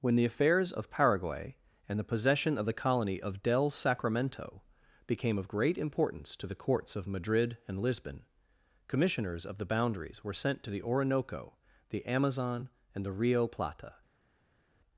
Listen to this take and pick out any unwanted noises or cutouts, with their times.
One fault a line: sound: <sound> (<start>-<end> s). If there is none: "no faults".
no faults